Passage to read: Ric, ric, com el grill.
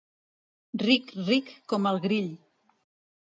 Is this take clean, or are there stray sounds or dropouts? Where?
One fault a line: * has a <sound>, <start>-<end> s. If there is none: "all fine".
all fine